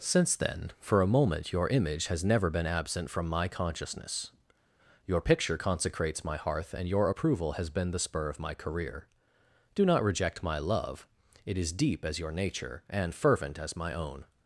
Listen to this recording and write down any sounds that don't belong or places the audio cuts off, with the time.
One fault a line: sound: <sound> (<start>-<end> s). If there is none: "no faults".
no faults